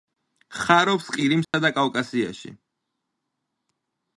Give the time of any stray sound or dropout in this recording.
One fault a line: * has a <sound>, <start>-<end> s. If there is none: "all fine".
* has a dropout, 1.4-1.5 s